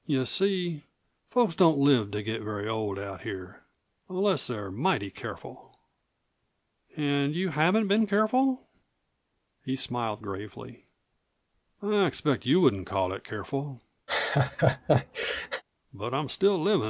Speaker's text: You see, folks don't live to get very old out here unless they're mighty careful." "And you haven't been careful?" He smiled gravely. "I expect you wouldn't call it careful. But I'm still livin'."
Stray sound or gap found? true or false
true